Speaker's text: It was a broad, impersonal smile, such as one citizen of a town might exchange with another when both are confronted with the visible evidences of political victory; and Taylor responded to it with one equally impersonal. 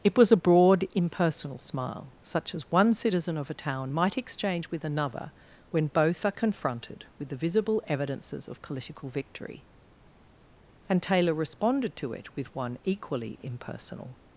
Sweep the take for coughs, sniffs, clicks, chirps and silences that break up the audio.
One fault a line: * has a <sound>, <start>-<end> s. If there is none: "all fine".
all fine